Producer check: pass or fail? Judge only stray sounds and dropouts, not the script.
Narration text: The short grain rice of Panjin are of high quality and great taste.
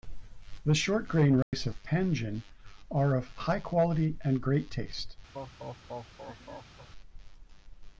fail